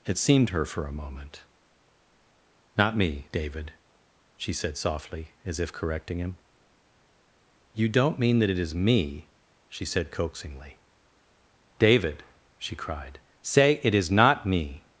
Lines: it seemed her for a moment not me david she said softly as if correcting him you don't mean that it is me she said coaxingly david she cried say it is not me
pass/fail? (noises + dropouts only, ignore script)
pass